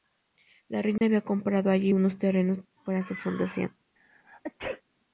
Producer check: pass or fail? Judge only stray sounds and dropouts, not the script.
fail